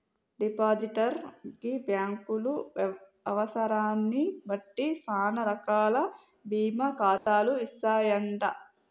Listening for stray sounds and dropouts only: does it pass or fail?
fail